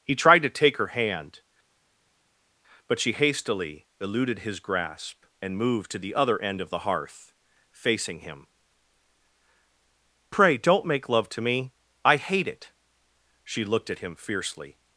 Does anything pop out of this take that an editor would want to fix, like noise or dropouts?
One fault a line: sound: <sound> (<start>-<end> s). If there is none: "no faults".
no faults